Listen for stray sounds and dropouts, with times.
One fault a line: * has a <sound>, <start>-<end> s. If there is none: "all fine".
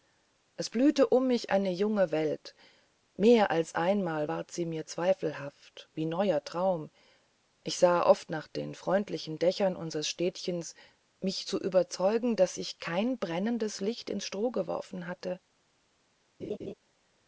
* has a laugh, 16.4-16.7 s